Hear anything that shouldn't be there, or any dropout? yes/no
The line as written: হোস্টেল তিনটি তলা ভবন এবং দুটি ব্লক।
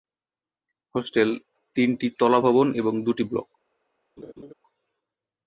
yes